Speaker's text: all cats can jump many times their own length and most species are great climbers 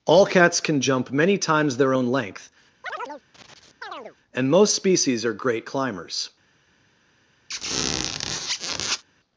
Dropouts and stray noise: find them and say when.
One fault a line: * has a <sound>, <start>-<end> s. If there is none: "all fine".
* has a chirp, 2.8-4.2 s
* has a squeak, 7.5-9.0 s